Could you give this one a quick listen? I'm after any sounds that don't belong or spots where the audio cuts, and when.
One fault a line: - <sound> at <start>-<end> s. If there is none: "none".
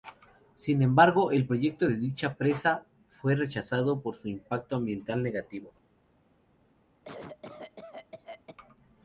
- cough at 7.0-8.6 s